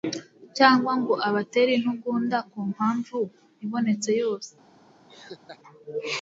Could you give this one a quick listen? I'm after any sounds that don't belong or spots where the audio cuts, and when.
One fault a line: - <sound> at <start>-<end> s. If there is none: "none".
- laugh at 5.1-5.6 s